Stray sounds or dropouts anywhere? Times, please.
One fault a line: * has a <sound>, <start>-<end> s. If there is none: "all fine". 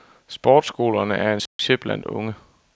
* has a dropout, 1.5-1.6 s